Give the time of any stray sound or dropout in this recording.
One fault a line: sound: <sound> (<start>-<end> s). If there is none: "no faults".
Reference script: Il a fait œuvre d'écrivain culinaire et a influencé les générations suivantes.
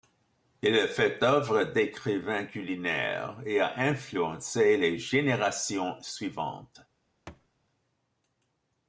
sound: thud (7.3-7.5 s)